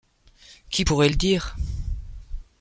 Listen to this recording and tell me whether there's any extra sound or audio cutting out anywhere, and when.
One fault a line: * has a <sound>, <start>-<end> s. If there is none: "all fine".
all fine